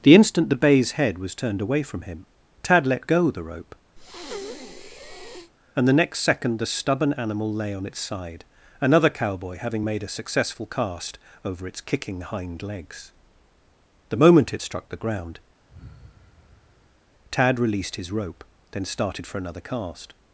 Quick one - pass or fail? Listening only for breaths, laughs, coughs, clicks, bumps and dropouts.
fail